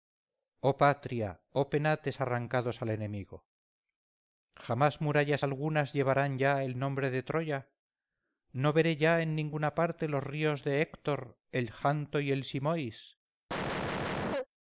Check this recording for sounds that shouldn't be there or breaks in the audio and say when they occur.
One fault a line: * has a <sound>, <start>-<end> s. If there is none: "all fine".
* has a cough, 13.5-14.5 s